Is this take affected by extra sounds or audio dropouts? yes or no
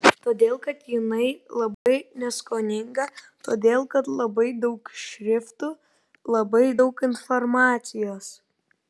yes